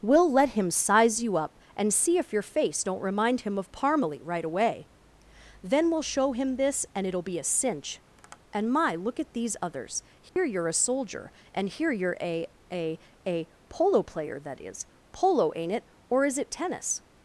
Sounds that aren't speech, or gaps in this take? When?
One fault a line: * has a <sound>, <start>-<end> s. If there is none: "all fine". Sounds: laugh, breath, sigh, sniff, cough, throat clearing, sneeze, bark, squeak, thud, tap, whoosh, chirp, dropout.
* has a tap, 8.2-8.4 s
* has a dropout, 10.3-10.4 s